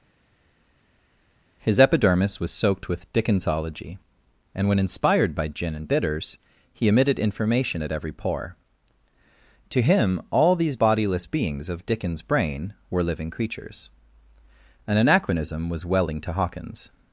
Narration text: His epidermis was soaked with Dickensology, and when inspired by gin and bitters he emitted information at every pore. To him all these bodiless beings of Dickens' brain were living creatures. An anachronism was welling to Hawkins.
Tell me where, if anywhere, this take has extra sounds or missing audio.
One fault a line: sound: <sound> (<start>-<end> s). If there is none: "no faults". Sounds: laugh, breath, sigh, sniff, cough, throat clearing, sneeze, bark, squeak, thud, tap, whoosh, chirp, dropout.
no faults